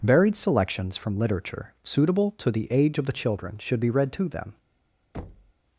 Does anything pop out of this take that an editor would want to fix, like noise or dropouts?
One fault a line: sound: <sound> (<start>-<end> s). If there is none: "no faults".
sound: thud (5.1-5.5 s)